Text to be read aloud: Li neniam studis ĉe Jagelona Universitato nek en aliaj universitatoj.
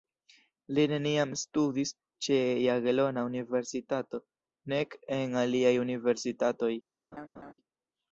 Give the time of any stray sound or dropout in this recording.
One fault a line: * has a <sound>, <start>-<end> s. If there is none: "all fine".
* has a laugh, 7.1-7.5 s